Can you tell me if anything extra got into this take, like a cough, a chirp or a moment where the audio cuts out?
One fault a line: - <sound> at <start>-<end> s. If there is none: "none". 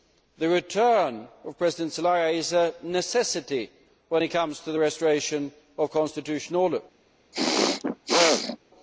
- throat clearing at 7.3-8.6 s